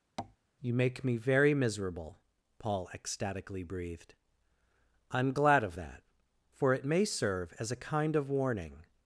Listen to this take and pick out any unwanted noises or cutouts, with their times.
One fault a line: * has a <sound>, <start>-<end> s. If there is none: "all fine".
* has a tap, 0.2-0.4 s